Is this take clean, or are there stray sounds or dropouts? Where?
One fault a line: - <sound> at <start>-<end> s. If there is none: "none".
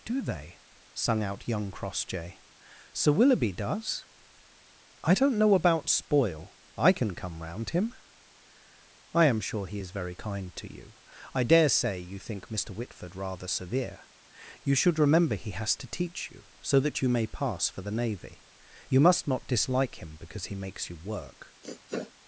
- sniff at 21.6-22.1 s